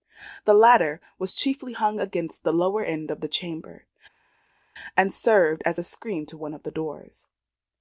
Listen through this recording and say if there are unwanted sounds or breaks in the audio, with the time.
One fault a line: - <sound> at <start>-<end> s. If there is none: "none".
none